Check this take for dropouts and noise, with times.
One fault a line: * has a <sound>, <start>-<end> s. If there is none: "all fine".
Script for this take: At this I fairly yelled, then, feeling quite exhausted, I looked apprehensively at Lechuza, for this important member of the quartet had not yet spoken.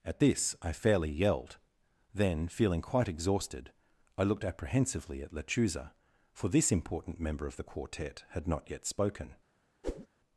* has a whoosh, 9.8-10.1 s